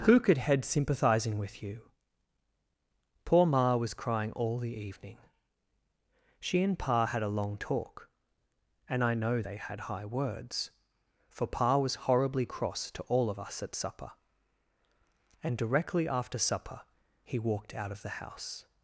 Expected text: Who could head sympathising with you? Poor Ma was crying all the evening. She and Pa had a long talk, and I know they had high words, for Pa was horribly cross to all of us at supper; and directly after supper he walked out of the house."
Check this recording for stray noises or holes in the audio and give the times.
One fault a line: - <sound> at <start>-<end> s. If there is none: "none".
none